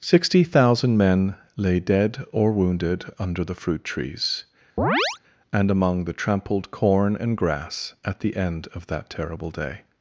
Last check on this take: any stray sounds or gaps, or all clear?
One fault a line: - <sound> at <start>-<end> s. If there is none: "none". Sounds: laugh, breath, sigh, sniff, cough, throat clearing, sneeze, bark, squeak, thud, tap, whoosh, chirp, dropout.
- chirp at 4.8-5.2 s